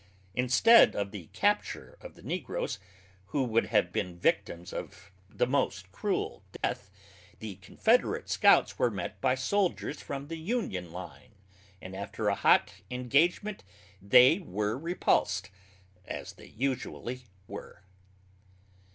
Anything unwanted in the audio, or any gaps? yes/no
yes